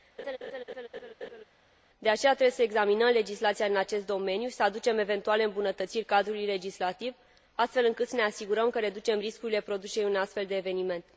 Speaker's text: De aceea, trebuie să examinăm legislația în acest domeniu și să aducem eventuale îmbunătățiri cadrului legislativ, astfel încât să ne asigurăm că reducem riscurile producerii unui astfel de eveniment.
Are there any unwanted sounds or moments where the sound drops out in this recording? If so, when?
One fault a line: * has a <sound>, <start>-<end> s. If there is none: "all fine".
* has a laugh, 0.2-1.4 s